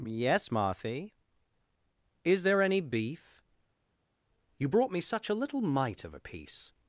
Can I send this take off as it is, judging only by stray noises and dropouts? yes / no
yes